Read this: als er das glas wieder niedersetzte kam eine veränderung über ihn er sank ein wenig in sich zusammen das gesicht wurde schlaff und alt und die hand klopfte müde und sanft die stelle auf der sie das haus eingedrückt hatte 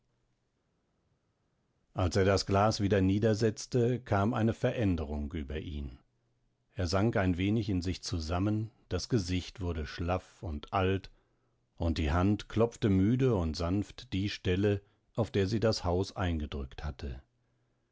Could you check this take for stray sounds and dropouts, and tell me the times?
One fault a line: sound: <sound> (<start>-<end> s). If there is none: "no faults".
no faults